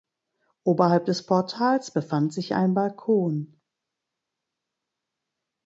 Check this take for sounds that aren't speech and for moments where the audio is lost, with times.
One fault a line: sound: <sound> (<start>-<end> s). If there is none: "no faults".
no faults